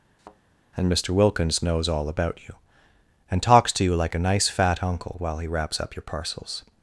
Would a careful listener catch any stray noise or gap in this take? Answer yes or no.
yes